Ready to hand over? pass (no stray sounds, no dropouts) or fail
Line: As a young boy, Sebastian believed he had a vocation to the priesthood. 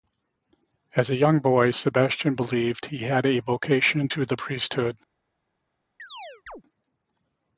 fail